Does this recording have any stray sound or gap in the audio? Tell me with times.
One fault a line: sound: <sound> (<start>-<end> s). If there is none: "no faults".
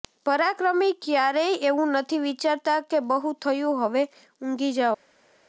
no faults